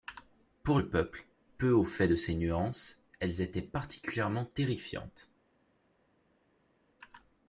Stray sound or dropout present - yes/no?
no